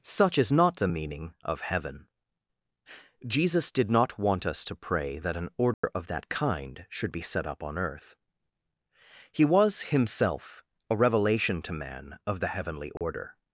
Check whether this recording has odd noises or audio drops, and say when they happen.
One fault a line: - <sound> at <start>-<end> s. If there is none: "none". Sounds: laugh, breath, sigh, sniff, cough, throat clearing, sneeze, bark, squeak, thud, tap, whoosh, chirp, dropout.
- dropout at 5.7-5.8 s
- dropout at 13.0-13.0 s